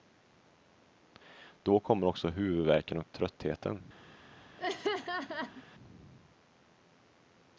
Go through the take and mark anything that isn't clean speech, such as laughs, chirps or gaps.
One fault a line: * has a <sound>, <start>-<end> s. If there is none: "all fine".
* has a laugh, 4.6-5.6 s